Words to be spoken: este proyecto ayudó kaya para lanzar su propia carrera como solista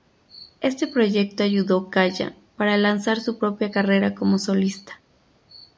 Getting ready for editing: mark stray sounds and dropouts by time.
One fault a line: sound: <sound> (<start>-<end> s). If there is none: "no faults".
no faults